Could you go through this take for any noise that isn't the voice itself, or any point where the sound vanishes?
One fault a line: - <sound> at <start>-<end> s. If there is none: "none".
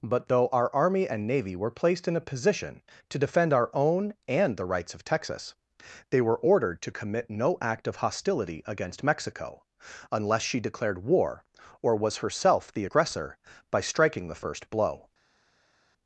none